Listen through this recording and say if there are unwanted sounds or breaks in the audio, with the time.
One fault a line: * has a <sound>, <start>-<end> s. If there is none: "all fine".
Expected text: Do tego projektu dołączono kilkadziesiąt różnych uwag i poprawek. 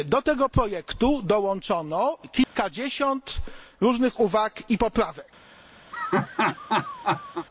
* has a dropout, 2.4-2.5 s
* has a laugh, 5.9-7.5 s